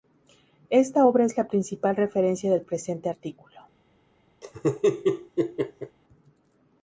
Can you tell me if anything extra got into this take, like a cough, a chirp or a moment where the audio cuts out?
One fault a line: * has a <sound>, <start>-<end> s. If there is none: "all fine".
* has a laugh, 4.4-6.0 s